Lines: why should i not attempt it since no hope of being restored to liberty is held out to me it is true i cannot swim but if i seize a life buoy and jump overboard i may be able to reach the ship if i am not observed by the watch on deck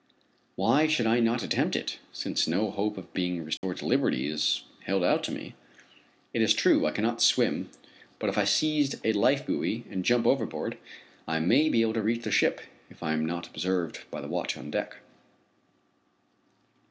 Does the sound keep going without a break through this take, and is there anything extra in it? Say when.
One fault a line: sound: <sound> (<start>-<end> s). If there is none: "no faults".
sound: dropout (3.6-3.6 s)